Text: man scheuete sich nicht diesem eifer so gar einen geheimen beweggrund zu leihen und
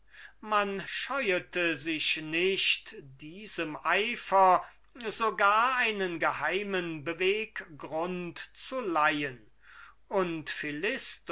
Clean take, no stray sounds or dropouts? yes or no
yes